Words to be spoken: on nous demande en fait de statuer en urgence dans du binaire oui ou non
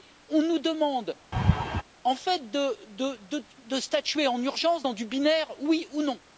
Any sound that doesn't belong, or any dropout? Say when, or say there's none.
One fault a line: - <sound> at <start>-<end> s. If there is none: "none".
- laugh at 1.3-1.8 s